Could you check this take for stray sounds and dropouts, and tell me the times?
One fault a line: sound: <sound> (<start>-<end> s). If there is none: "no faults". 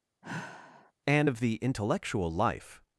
sound: sigh (0.2-0.9 s)